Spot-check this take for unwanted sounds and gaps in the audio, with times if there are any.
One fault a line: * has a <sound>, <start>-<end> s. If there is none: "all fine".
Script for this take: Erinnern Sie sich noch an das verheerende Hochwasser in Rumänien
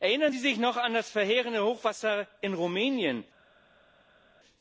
all fine